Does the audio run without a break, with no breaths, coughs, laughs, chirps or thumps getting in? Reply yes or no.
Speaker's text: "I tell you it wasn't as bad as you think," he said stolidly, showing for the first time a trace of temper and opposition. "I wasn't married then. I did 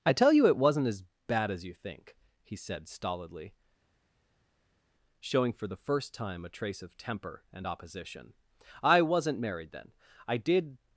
yes